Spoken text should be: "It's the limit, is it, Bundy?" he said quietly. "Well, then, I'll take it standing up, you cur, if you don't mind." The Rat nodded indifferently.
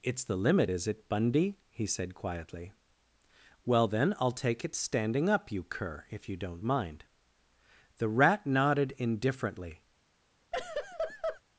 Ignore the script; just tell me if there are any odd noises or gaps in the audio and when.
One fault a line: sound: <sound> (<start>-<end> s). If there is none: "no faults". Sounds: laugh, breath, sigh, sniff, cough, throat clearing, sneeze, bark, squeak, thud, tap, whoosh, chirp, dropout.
sound: laugh (10.5-11.4 s)